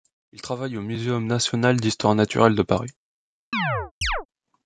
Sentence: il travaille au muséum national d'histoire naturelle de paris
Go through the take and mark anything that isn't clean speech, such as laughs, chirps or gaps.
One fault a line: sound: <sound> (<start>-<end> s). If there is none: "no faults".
sound: chirp (3.5-4.3 s)